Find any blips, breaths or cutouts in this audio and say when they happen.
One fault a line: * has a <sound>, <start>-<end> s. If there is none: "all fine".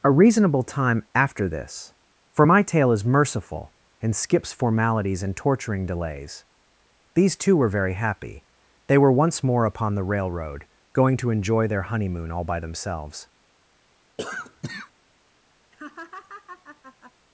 * has a cough, 14.2-14.9 s
* has a laugh, 15.7-17.1 s